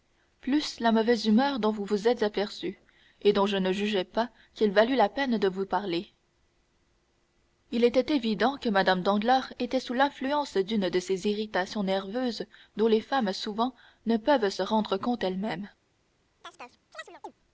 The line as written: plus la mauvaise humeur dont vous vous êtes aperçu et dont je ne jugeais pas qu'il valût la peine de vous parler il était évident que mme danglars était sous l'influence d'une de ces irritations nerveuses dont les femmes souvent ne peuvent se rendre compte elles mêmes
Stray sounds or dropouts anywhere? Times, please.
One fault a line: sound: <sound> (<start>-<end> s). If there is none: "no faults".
sound: chirp (16.4-17.3 s)